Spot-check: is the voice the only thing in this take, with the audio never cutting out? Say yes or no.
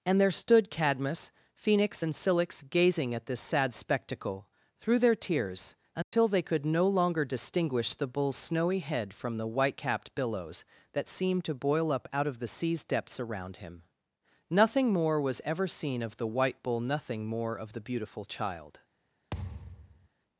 no